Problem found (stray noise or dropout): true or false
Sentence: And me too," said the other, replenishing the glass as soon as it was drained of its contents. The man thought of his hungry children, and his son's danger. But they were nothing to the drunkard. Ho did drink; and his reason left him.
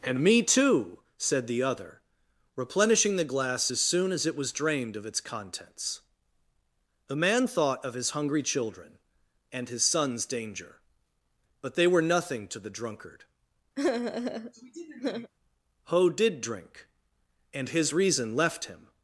true